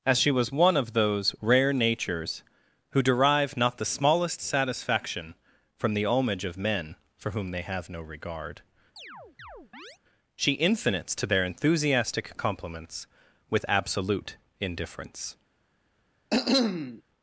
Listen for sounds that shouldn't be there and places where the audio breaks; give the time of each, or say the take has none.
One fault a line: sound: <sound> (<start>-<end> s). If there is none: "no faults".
sound: chirp (9.0-10.0 s)
sound: cough (16.3-17.0 s)